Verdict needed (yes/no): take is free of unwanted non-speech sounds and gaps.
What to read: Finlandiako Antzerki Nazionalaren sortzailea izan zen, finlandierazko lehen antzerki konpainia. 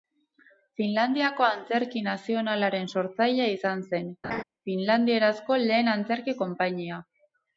no